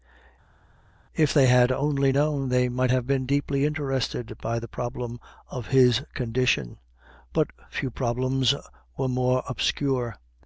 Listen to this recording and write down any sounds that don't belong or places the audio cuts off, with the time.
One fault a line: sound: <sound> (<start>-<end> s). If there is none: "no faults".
no faults